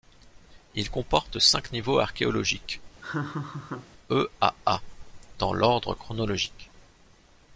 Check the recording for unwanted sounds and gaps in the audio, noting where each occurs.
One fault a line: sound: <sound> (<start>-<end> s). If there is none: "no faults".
sound: laugh (3.0-3.9 s)